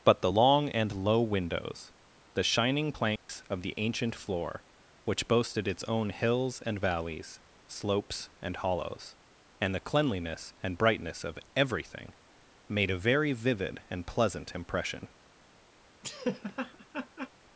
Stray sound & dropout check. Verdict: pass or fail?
fail